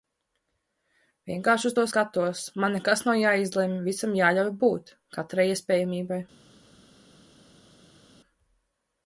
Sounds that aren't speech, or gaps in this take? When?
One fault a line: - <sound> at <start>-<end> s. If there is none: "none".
none